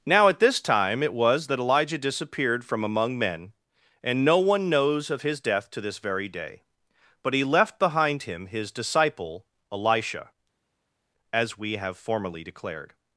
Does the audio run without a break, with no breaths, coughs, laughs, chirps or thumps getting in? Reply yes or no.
yes